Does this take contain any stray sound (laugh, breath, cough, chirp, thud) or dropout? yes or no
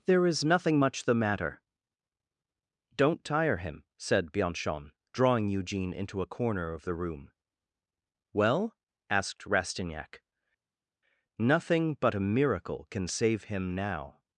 no